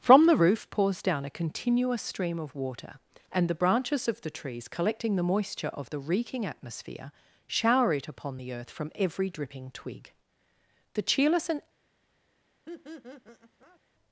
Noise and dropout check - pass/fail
fail